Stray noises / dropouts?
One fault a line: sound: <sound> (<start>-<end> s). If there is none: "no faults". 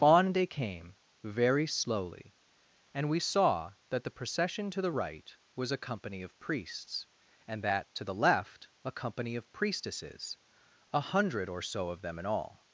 no faults